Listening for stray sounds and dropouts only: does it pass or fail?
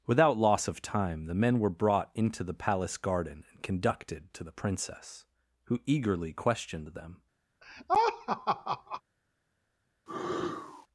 fail